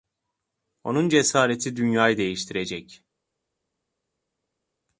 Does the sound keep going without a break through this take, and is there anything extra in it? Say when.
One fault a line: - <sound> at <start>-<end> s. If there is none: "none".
none